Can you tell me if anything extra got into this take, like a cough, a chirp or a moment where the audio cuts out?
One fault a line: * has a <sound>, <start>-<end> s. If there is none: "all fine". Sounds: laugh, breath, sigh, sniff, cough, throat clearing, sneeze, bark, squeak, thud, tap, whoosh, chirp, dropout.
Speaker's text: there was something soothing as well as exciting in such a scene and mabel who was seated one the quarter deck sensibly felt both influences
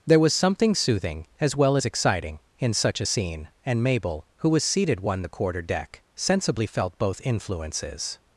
all fine